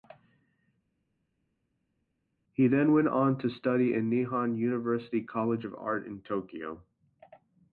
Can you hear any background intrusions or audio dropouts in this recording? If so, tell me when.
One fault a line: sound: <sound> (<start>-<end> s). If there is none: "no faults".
no faults